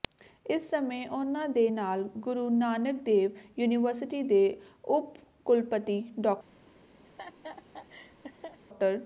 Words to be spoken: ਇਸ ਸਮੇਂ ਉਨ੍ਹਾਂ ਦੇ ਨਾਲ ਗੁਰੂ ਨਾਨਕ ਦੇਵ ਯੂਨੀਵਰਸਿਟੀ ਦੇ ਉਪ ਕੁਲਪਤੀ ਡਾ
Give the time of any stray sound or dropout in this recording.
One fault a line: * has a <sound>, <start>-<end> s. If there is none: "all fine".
* has a laugh, 7.1-8.6 s